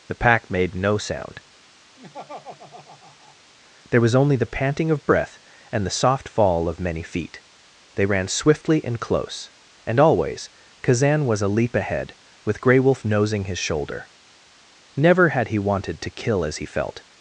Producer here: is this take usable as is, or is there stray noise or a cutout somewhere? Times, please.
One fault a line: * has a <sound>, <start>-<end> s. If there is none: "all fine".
* has a laugh, 2.0-3.4 s